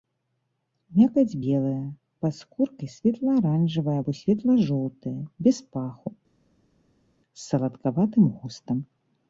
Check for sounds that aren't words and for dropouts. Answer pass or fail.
pass